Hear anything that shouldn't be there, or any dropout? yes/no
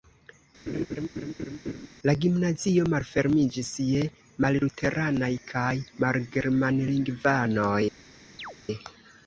yes